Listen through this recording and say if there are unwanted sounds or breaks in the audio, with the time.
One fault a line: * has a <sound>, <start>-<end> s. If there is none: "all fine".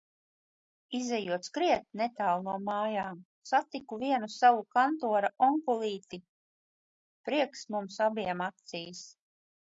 all fine